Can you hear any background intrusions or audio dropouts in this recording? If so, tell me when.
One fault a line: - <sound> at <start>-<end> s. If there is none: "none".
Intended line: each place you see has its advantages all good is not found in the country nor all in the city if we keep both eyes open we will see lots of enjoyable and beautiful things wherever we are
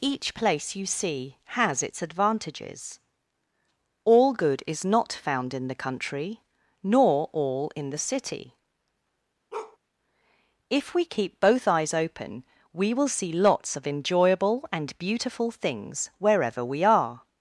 - bark at 9.5-9.8 s